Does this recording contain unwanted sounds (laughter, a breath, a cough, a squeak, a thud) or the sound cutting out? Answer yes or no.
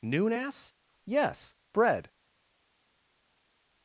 no